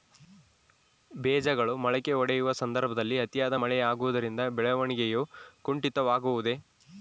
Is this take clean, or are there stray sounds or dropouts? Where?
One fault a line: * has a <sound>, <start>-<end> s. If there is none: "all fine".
all fine